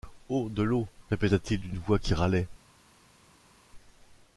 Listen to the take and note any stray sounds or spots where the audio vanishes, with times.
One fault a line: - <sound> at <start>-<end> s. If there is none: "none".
none